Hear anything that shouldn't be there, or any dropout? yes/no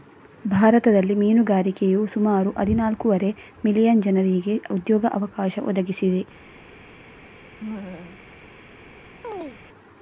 yes